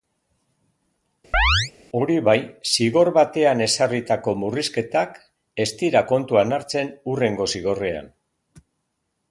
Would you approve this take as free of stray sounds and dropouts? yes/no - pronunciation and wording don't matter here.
no